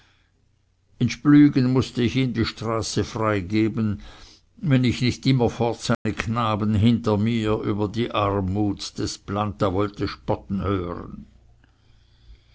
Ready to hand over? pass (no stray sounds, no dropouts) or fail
fail